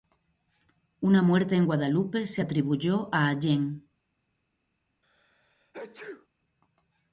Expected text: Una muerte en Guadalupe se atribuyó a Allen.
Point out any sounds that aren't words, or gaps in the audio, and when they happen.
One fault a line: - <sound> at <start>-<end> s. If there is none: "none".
- sneeze at 5.0-6.3 s